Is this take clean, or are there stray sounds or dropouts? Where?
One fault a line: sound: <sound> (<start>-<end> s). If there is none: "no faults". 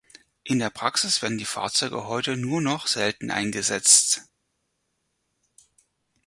no faults